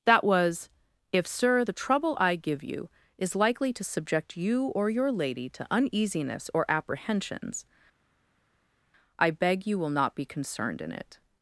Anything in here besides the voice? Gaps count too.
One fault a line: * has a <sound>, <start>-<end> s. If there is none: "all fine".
all fine